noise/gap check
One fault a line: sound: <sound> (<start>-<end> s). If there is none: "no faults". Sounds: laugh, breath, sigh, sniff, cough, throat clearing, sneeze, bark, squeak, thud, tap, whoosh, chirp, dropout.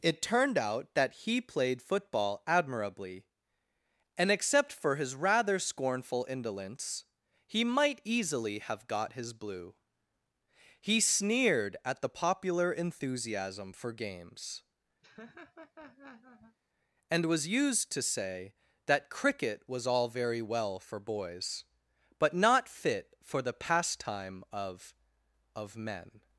sound: laugh (15.0-16.6 s)